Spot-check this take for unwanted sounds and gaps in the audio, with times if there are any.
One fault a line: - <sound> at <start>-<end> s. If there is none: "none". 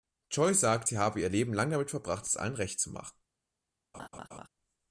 - laugh at 3.9-4.5 s